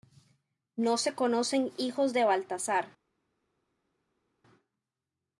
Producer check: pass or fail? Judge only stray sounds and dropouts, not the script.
pass